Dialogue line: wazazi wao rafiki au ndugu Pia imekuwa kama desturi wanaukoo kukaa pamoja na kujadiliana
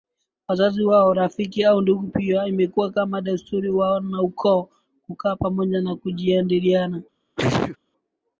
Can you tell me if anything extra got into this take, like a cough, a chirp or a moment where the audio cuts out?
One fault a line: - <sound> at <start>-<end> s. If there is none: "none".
- sneeze at 7.4-7.8 s